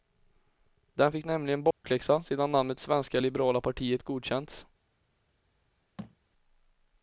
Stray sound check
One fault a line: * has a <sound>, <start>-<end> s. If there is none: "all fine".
* has a dropout, 1.7-1.8 s
* has a thud, 6.0-6.2 s